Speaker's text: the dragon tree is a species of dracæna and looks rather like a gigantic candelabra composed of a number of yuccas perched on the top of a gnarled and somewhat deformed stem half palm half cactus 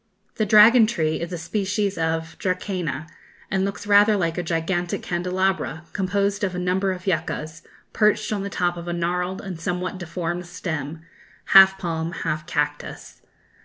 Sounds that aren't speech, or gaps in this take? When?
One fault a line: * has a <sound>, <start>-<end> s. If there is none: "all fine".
all fine